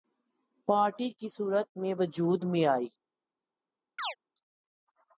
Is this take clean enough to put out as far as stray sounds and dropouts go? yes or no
no